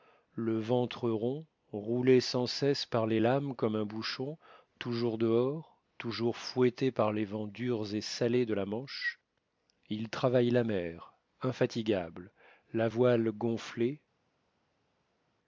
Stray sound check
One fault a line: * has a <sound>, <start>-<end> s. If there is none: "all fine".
all fine